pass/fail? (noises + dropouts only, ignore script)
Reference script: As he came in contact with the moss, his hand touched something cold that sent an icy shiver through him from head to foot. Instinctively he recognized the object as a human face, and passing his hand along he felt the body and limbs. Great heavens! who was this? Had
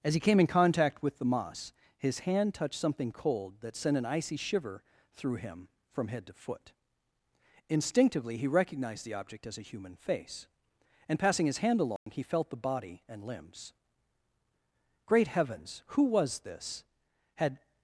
fail